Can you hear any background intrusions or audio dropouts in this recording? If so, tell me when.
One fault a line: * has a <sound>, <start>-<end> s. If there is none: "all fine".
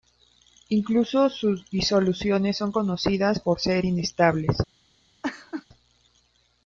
* has a laugh, 5.2-5.7 s